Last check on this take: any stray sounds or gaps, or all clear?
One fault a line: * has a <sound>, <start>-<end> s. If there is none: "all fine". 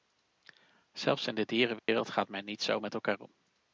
* has a dropout, 1.8-1.9 s